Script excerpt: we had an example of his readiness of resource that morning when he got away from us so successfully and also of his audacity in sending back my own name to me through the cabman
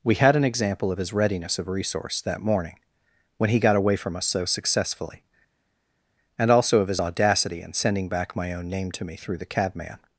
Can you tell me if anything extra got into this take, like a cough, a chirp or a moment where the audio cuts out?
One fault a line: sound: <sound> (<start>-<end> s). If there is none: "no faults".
no faults